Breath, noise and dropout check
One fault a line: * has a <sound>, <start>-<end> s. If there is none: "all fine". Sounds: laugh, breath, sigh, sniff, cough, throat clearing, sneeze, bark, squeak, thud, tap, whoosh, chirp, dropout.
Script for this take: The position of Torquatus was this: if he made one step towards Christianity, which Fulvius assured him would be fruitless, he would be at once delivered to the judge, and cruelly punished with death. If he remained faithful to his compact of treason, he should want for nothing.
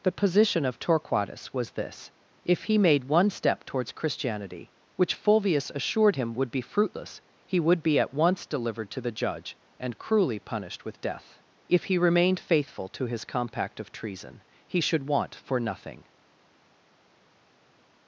all fine